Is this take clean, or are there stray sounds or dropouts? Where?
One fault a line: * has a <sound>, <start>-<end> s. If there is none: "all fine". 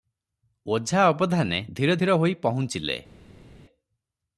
all fine